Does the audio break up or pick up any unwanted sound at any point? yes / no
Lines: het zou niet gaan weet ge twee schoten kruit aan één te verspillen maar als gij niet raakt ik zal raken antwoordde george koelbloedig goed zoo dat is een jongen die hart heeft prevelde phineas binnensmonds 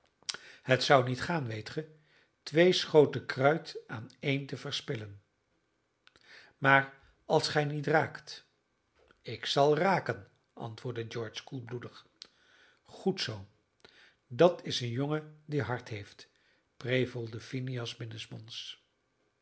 no